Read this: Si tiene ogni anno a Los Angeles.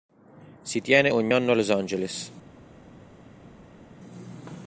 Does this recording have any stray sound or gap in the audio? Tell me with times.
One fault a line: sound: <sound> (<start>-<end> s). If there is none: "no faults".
no faults